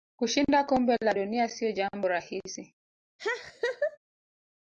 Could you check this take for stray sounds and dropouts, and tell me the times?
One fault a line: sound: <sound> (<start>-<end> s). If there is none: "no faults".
sound: laugh (3.2-4.0 s)